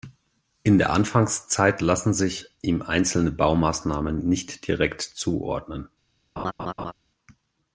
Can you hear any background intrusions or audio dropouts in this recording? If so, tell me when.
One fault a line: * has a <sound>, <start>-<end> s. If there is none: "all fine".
* has a laugh, 6.4-6.9 s